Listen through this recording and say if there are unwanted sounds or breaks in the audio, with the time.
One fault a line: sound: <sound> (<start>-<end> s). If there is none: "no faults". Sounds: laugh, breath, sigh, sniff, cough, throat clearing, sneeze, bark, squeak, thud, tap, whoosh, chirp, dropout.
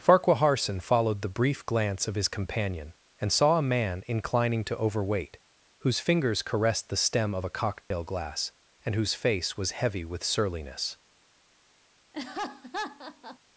sound: dropout (7.8-7.9 s)
sound: laugh (12.1-13.4 s)